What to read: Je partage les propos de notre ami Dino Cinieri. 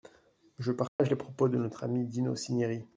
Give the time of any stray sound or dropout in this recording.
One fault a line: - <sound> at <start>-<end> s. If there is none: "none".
- dropout at 0.9-1.0 s